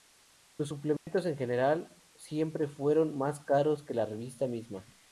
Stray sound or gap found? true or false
true